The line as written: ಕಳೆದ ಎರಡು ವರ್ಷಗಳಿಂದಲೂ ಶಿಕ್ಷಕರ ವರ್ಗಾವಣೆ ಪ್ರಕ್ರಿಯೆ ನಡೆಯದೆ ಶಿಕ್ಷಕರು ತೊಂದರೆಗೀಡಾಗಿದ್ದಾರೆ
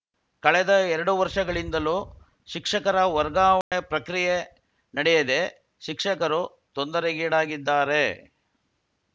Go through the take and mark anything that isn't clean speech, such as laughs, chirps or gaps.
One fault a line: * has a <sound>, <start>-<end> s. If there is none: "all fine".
* has a dropout, 3.6-3.7 s